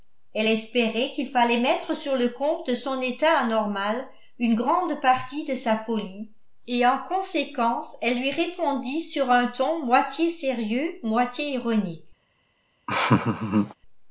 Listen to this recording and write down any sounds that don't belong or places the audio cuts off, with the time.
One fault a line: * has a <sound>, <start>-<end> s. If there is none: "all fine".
* has a laugh, 12.9-13.7 s